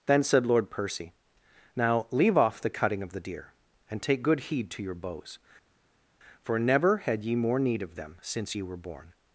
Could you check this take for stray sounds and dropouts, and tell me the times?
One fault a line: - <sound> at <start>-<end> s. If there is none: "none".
none